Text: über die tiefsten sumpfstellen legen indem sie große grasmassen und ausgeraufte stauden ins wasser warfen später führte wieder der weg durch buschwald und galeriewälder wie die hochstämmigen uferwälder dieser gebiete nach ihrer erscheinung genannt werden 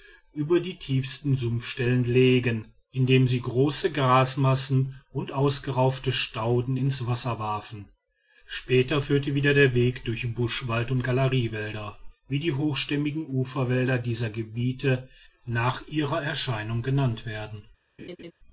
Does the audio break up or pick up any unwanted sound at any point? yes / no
yes